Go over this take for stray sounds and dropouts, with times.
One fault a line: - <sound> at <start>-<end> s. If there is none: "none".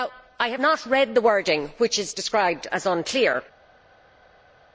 none